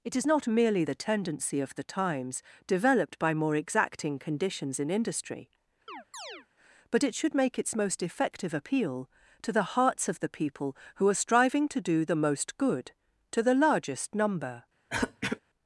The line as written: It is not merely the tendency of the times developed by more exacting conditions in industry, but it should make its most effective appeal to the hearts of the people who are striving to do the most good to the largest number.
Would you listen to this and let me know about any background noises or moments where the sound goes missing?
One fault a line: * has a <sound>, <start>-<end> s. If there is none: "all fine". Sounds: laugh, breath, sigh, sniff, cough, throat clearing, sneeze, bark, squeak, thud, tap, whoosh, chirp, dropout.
* has a chirp, 5.9-6.5 s
* has a throat clearing, 14.9-15.4 s